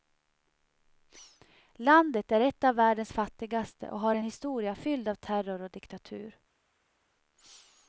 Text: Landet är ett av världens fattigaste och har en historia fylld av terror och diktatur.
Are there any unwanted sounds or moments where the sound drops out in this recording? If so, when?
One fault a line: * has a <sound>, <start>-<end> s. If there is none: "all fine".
all fine